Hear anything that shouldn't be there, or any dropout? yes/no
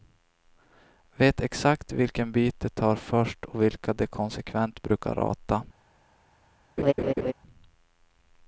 yes